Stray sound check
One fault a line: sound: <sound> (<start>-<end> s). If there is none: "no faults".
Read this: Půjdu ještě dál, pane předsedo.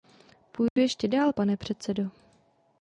sound: dropout (0.7-0.8 s)